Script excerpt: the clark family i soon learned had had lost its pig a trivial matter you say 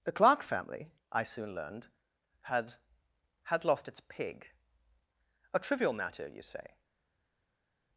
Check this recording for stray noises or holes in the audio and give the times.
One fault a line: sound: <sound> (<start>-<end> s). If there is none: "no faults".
no faults